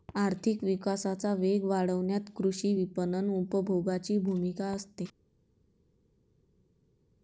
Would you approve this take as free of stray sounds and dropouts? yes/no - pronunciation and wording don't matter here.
yes